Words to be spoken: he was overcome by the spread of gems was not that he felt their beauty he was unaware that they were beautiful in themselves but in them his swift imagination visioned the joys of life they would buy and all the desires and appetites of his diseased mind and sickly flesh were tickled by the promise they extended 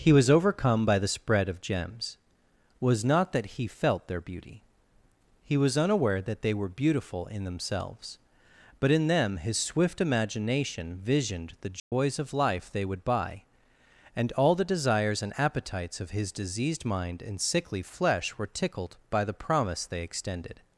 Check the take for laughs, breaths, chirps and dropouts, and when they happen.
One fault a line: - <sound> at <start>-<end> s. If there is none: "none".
- dropout at 11.8-11.9 s